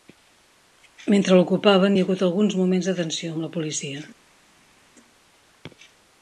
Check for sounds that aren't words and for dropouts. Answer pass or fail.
pass